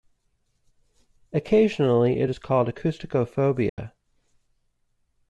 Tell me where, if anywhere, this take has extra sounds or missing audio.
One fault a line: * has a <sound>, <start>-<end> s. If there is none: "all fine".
* has a dropout, 3.7-3.8 s